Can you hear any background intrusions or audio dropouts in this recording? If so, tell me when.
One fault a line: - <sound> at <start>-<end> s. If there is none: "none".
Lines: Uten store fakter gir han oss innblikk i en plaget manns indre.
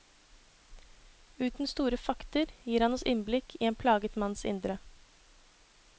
none